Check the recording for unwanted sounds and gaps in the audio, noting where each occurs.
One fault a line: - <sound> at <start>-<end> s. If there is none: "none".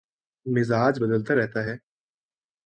none